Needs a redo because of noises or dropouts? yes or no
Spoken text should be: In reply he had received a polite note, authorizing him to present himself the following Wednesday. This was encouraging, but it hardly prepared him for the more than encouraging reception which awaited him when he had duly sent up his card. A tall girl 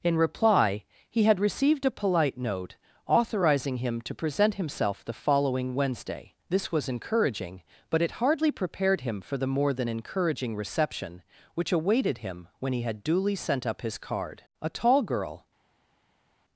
no